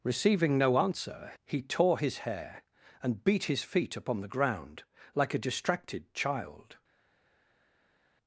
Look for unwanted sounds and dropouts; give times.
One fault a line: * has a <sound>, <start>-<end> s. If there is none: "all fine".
all fine